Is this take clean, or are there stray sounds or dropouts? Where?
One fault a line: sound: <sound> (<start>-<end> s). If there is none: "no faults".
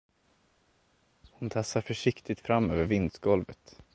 no faults